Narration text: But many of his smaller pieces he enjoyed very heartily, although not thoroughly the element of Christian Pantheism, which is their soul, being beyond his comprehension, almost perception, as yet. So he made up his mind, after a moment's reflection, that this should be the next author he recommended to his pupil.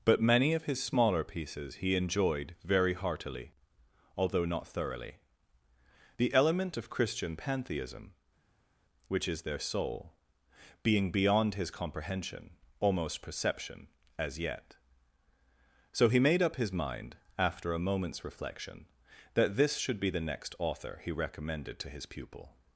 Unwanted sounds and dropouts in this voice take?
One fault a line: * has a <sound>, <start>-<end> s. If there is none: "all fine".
all fine